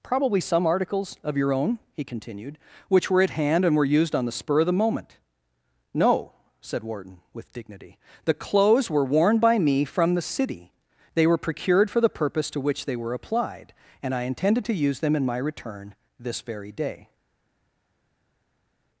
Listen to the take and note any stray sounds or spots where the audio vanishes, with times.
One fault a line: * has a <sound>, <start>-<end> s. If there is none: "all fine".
all fine